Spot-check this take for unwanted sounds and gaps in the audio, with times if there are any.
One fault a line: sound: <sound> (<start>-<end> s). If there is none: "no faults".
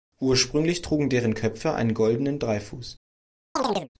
sound: chirp (3.6-3.9 s)